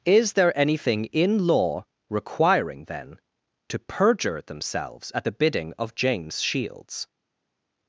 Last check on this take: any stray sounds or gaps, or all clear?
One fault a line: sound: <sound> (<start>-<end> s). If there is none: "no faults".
no faults